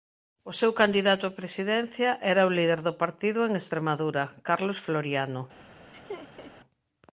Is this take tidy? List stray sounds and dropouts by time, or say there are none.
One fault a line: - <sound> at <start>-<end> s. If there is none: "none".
- laugh at 5.9-6.5 s